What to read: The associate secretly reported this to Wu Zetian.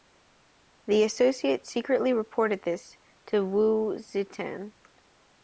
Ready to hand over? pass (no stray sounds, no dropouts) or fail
pass